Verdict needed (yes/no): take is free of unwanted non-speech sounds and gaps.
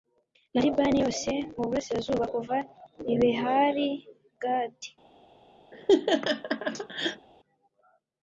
no